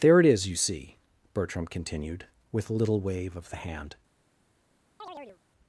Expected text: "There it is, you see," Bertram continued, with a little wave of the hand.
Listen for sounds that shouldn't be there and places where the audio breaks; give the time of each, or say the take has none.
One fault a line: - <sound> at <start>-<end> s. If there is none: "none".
- chirp at 5.0-5.4 s